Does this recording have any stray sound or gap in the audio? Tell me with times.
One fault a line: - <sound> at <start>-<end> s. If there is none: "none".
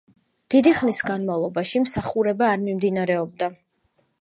none